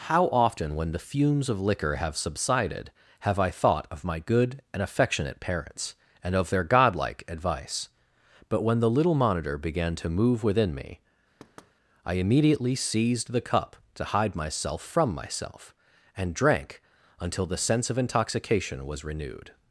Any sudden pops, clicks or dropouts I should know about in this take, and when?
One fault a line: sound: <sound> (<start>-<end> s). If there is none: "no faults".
sound: thud (11.4-11.7 s)